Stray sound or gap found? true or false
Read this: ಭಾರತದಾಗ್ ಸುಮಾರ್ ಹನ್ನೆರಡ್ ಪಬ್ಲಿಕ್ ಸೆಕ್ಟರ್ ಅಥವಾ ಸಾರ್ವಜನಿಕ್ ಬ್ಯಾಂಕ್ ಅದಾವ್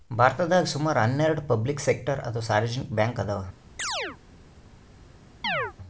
true